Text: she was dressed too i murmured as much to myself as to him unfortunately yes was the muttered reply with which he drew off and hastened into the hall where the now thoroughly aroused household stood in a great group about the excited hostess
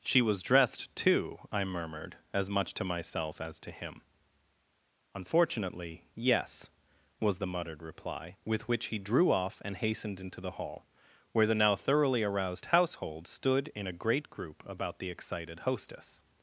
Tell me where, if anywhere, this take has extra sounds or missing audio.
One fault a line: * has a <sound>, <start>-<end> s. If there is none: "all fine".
all fine